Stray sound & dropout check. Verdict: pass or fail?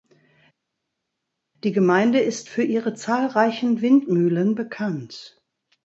pass